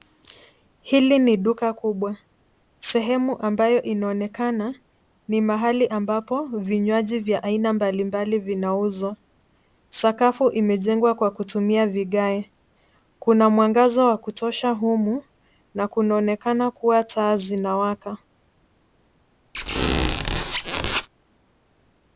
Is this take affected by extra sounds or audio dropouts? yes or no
yes